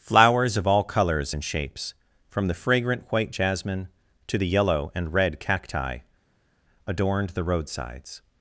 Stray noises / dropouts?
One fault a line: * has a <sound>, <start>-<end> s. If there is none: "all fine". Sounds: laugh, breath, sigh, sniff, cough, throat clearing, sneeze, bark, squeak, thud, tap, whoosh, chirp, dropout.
all fine